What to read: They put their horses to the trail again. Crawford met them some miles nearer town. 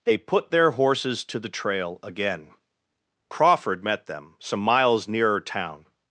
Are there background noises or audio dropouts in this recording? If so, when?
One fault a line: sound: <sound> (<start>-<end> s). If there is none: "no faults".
no faults